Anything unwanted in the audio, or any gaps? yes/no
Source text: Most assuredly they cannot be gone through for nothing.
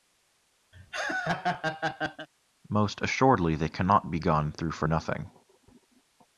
yes